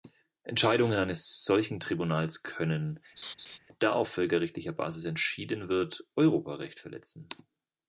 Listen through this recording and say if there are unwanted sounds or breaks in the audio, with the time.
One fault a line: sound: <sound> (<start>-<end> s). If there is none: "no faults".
sound: laugh (3.2-3.6 s)